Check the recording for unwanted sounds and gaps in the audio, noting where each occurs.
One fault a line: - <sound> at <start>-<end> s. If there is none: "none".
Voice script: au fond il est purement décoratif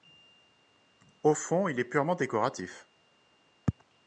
none